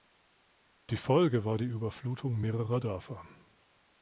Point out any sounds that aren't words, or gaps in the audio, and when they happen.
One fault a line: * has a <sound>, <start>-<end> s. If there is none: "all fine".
all fine